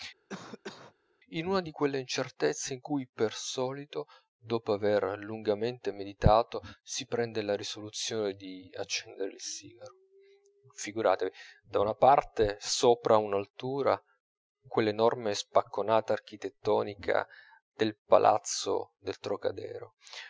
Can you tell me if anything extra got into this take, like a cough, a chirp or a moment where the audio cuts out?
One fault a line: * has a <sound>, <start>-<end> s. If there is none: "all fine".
* has a cough, 0.3-0.9 s